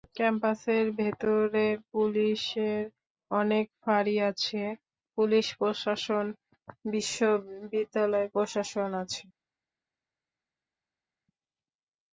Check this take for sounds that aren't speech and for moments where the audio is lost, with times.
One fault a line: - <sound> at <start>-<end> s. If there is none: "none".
none